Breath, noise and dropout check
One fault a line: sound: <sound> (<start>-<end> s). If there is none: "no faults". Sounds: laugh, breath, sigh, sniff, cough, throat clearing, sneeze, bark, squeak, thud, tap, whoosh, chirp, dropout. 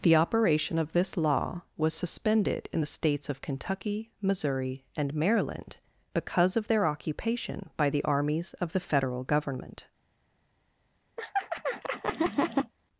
sound: laugh (11.2-12.7 s)